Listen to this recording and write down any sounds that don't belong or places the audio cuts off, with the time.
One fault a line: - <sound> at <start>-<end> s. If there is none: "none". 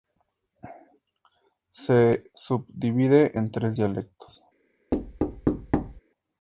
- thud at 4.9-6.0 s